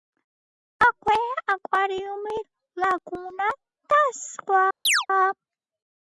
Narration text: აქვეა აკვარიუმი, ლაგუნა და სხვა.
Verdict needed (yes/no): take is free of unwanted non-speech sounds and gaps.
no